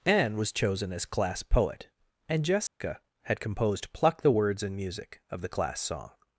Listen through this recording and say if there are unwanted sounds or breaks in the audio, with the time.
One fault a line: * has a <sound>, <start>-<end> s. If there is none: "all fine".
* has a dropout, 2.7-2.8 s